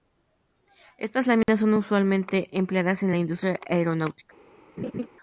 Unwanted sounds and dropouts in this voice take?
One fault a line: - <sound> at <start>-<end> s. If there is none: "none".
- dropout at 1.4-1.5 s
- laugh at 4.8-5.1 s